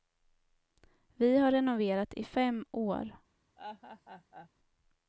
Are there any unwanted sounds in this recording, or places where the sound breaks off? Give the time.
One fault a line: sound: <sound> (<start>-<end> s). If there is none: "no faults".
sound: laugh (3.6-4.5 s)